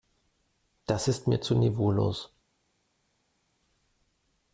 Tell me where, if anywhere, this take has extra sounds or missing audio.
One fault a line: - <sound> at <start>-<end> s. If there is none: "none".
none